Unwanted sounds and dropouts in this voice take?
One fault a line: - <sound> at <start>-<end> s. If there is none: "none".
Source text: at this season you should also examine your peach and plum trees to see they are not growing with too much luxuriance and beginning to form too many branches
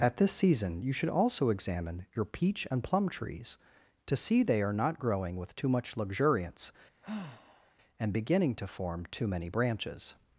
- sigh at 7.0-7.7 s